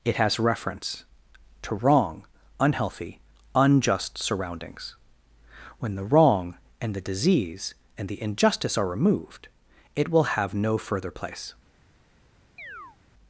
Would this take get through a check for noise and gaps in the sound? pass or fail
fail